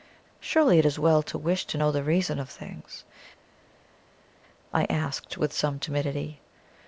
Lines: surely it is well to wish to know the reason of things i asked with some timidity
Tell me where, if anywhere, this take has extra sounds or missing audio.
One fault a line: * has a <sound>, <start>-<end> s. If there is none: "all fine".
all fine